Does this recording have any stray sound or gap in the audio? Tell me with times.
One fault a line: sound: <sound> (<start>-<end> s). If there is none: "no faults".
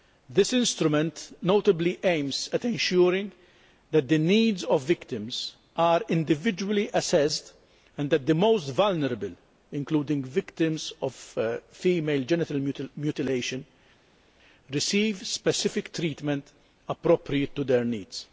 no faults